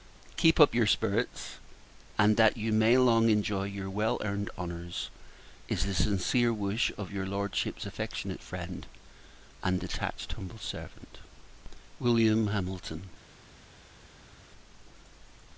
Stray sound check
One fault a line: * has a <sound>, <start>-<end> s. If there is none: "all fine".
all fine